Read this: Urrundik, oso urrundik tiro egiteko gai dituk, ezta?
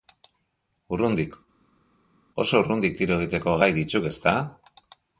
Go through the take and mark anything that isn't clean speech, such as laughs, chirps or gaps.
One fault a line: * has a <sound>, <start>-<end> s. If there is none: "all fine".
all fine